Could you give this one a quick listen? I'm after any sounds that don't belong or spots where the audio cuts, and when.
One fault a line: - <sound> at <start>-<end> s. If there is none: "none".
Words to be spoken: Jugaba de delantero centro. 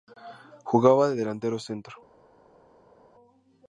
none